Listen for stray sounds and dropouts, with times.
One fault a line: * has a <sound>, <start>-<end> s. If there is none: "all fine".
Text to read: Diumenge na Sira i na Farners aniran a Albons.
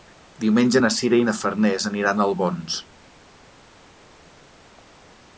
all fine